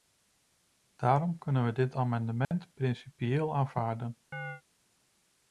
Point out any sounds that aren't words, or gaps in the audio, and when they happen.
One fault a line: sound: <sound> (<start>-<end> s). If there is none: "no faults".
sound: dropout (2.4-2.5 s)
sound: chirp (4.3-4.6 s)